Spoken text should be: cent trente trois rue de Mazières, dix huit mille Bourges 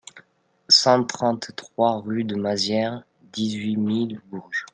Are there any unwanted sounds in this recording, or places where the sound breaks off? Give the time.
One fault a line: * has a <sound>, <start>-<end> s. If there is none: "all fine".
all fine